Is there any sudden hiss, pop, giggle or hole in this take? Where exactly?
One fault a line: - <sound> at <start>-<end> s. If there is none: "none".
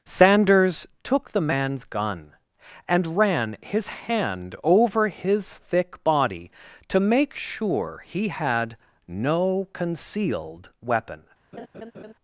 - laugh at 11.5-12.1 s